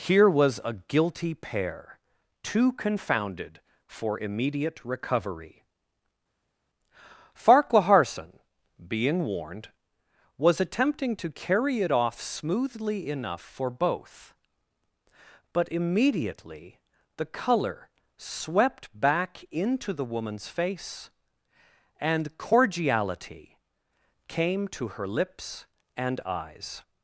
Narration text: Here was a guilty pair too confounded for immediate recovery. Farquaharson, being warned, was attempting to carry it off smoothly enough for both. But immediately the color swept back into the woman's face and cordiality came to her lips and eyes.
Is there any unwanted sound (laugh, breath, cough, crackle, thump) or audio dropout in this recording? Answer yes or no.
no